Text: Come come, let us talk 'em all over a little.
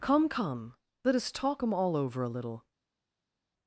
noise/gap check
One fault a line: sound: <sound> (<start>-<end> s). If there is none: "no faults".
no faults